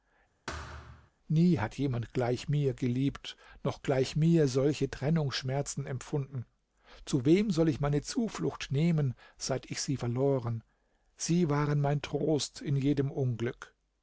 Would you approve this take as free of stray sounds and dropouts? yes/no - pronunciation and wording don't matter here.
no